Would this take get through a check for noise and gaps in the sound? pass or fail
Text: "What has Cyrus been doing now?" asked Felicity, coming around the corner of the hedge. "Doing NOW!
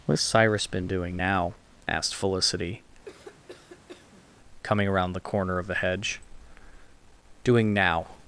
fail